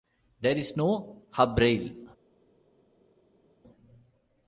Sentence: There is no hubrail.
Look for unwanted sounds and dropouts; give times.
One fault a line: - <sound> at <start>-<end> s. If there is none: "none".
none